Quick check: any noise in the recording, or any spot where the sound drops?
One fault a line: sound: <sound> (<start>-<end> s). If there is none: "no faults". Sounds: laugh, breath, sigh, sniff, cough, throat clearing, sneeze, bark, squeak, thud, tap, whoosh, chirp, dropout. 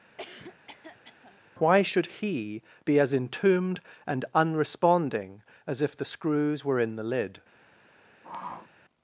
sound: cough (0.2-1.4 s)
sound: sniff (8.2-8.7 s)